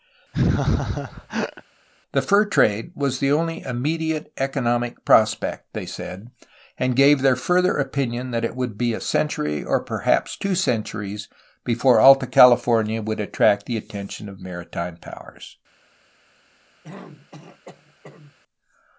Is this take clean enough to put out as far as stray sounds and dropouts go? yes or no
no